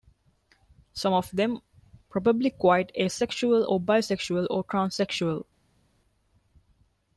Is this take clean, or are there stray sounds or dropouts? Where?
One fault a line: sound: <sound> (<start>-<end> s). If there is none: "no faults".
no faults